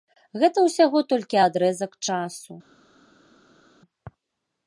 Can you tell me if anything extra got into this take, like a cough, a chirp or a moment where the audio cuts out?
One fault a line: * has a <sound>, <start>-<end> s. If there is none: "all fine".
all fine